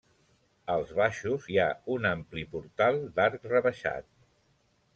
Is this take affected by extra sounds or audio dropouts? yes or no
no